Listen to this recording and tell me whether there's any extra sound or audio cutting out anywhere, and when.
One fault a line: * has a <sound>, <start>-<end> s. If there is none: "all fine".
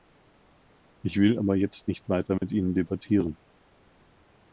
* has a dropout, 2.4-2.4 s